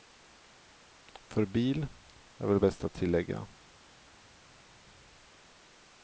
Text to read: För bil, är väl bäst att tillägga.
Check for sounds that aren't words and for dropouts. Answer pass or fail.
pass